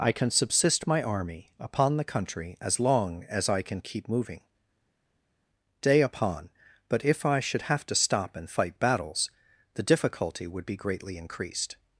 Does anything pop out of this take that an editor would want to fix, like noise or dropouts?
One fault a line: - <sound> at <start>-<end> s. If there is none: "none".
none